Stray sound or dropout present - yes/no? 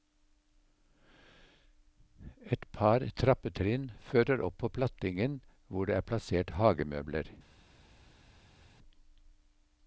no